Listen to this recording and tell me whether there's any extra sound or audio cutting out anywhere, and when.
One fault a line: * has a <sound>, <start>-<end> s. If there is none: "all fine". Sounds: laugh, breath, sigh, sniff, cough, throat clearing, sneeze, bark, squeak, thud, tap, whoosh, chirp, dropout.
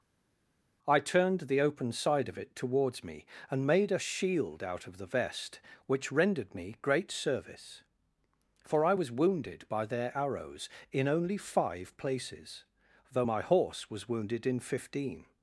all fine